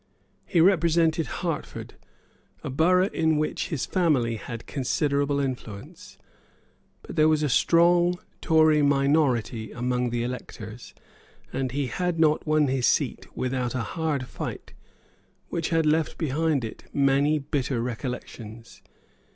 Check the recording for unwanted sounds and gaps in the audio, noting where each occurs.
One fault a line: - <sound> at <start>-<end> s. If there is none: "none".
none